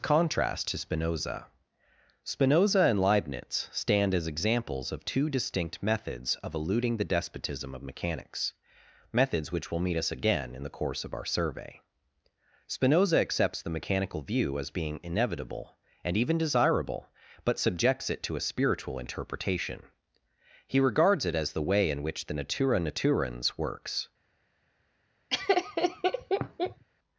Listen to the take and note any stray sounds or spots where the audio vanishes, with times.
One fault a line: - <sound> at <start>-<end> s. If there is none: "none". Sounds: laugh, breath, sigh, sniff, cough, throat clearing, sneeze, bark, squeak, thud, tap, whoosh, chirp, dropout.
- laugh at 25.3-26.8 s